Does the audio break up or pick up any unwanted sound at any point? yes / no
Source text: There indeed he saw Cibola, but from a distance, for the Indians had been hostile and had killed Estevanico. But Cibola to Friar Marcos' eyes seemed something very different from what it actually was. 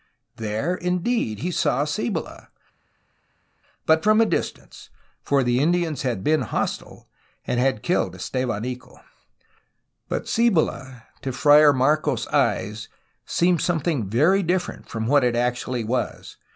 no